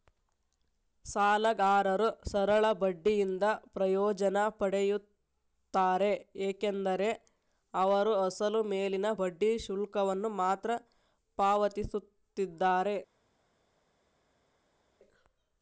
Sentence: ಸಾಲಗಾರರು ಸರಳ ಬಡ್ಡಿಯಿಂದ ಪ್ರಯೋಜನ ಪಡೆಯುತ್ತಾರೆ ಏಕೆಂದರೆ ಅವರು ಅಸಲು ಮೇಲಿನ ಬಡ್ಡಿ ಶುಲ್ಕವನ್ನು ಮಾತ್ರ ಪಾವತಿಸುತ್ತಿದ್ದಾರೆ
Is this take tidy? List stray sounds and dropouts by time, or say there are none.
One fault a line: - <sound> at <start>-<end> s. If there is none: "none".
none